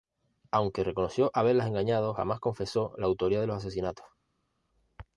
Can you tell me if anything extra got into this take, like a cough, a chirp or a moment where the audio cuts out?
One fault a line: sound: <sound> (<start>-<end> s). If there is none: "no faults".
no faults